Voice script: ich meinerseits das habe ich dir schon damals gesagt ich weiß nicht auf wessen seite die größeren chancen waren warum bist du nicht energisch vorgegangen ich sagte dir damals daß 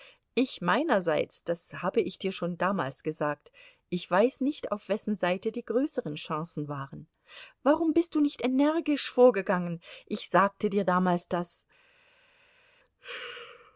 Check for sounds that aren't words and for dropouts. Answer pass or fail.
pass